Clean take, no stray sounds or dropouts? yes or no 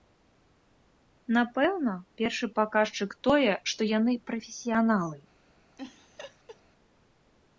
no